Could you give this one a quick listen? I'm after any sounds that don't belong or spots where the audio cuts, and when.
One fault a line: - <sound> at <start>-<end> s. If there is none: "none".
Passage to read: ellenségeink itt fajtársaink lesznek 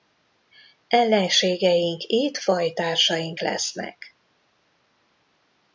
none